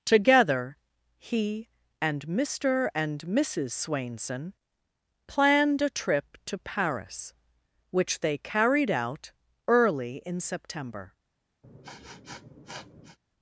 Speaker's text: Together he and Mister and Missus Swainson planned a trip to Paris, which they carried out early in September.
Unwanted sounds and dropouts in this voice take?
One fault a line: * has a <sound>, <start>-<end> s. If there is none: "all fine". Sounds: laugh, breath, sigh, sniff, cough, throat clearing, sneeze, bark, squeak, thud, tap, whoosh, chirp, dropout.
* has a sniff, 11.6-13.2 s